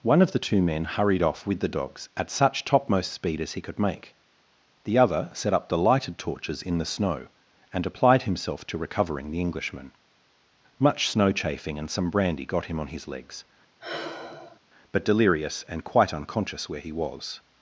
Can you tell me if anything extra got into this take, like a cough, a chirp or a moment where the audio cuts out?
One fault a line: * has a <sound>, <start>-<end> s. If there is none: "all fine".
* has a sigh, 13.8-14.6 s